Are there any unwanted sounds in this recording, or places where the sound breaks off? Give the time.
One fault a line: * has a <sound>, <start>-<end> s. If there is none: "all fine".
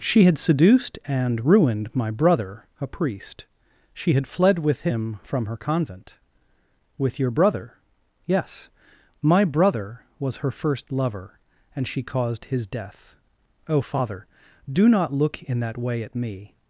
all fine